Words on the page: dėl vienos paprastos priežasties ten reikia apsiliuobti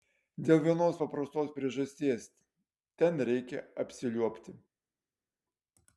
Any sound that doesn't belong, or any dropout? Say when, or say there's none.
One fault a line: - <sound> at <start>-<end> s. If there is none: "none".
none